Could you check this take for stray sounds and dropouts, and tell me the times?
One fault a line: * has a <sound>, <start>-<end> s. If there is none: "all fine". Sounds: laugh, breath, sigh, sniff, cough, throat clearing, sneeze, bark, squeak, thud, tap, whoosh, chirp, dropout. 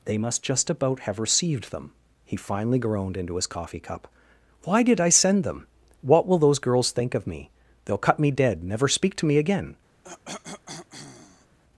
* has a cough, 10.0-11.6 s